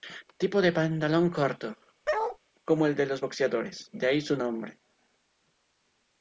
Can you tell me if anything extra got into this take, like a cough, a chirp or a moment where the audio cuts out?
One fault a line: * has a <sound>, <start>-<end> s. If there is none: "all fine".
* has a bark, 2.1-2.4 s